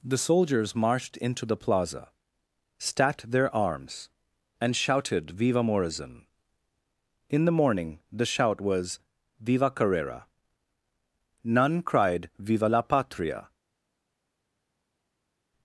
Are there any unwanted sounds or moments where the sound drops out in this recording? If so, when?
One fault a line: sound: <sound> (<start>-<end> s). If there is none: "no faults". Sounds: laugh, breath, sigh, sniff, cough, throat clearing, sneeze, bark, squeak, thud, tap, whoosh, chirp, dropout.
no faults